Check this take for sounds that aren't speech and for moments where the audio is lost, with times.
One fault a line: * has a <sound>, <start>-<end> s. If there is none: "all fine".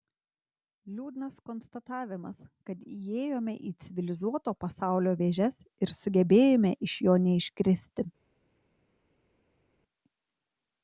all fine